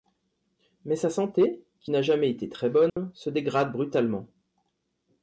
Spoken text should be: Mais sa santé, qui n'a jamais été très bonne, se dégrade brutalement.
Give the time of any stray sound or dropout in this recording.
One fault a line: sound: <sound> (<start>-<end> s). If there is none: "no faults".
sound: dropout (2.9-3.0 s)